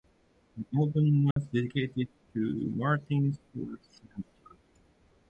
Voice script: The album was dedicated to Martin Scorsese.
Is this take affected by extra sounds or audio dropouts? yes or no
yes